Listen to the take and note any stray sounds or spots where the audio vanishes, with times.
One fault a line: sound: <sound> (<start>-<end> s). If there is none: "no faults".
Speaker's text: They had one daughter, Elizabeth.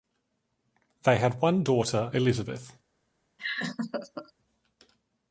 sound: laugh (3.4-4.3 s)